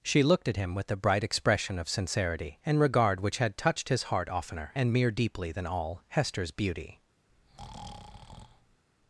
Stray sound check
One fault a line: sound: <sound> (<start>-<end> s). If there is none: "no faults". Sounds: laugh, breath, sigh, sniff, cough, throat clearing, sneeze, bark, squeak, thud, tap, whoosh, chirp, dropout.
sound: breath (7.3-8.8 s)